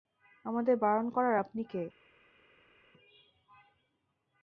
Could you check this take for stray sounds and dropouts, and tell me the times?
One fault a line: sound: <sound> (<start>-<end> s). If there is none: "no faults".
no faults